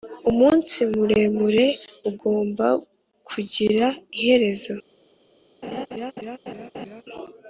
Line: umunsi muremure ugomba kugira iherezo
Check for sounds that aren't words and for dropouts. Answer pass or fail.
fail